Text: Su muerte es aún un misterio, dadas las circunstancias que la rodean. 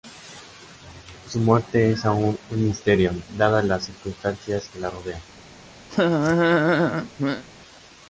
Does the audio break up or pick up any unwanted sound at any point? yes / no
yes